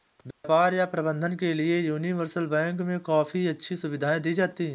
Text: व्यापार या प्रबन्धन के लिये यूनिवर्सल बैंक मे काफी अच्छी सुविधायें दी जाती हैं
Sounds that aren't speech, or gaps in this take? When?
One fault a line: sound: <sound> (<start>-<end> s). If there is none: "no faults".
sound: dropout (0.3-0.4 s)